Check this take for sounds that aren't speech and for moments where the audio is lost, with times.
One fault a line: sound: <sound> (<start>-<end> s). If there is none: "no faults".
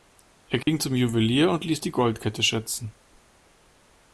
sound: dropout (0.6-0.7 s)